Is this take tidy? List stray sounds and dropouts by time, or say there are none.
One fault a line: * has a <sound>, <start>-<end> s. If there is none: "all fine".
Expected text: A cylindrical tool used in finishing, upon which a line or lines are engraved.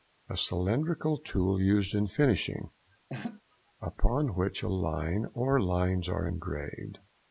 * has a laugh, 3.1-3.4 s